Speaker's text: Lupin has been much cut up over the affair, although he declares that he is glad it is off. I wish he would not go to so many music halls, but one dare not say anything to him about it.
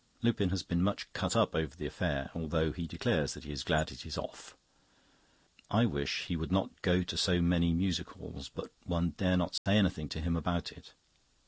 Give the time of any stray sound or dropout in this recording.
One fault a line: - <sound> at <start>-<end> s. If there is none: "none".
- dropout at 9.6-9.7 s